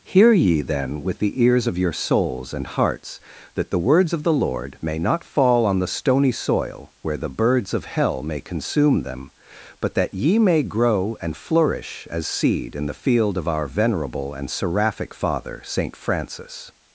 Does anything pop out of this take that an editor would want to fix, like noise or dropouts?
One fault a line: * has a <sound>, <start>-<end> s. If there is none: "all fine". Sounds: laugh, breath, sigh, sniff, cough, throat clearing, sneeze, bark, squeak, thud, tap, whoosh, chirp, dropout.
all fine